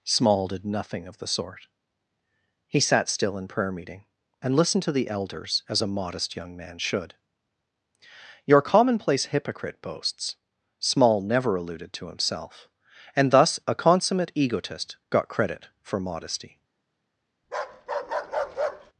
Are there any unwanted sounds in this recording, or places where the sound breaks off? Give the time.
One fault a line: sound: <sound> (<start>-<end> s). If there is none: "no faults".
sound: bark (17.4-18.9 s)